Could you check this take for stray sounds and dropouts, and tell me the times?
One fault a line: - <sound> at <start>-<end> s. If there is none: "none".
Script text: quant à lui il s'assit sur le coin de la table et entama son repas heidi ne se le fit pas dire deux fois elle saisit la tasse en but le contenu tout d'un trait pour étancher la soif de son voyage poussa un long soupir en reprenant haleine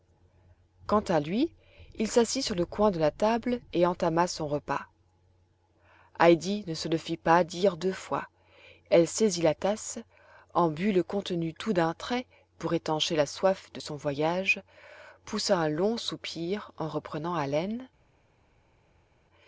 none